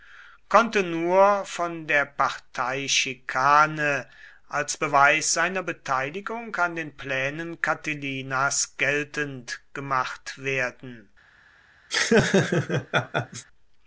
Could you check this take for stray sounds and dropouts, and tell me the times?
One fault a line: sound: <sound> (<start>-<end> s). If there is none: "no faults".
sound: laugh (11.9-13.5 s)